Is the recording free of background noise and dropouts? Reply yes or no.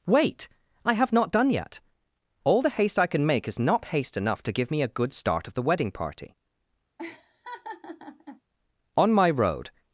no